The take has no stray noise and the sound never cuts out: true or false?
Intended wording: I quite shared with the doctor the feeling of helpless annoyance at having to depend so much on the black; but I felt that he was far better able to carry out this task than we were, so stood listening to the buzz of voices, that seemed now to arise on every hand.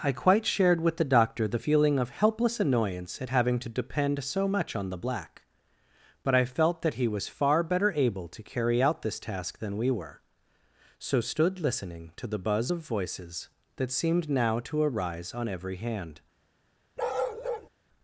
false